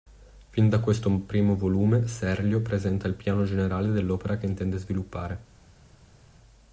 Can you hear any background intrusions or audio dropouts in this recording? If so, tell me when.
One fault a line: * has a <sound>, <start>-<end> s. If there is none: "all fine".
all fine